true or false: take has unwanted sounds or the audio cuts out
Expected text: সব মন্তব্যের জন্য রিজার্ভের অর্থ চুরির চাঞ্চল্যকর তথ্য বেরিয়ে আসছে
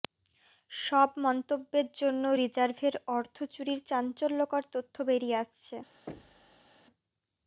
true